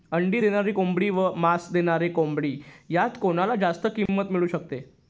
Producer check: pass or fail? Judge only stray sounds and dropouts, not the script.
fail